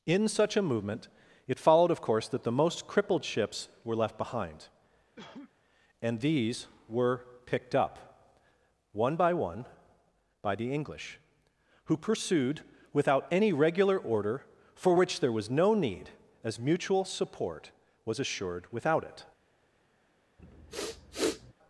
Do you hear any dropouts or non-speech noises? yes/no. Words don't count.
yes